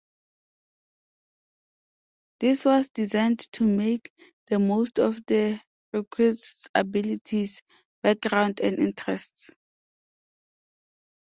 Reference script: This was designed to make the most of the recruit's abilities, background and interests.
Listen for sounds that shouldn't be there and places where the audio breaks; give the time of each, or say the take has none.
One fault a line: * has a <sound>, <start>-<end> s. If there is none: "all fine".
all fine